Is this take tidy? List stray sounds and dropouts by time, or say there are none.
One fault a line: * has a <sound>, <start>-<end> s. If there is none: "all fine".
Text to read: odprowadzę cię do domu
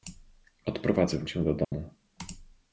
* has a dropout, 1.6-1.7 s